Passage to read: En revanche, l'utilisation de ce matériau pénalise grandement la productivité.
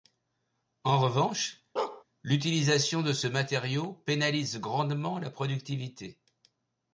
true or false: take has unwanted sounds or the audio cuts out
true